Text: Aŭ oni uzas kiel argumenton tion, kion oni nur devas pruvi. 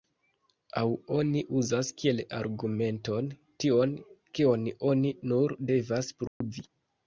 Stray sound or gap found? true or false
true